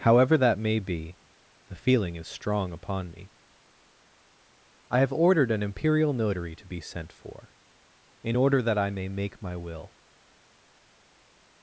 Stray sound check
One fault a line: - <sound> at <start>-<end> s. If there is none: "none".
none